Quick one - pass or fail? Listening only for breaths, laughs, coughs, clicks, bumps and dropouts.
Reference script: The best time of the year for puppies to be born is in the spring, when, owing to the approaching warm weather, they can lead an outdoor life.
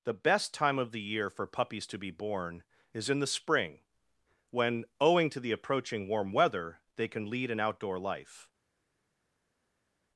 pass